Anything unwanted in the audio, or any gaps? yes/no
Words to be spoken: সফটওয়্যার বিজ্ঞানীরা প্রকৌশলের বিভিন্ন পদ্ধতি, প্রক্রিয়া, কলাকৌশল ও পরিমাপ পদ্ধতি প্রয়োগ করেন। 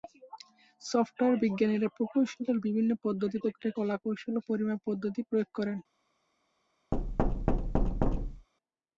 yes